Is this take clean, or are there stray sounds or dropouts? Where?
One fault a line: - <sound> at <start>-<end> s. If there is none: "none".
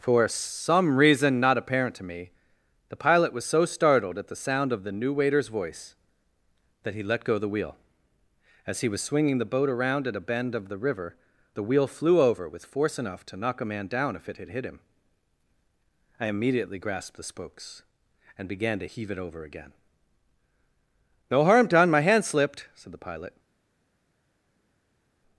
none